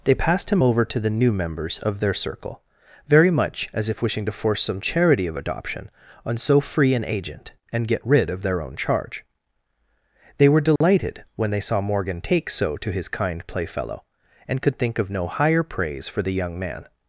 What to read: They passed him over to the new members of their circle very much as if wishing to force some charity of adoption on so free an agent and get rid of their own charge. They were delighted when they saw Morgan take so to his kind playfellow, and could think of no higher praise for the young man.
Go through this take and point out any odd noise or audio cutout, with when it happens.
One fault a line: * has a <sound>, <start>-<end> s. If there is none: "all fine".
* has a dropout, 10.8-10.8 s